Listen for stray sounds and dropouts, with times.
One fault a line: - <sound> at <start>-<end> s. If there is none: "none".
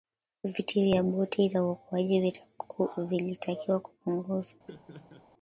- laugh at 4.7-5.3 s